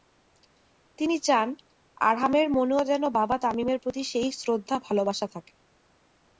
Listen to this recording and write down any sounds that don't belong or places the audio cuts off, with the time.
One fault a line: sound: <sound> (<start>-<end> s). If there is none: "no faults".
no faults